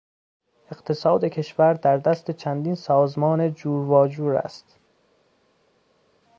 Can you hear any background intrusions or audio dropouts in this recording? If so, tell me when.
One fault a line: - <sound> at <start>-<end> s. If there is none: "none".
none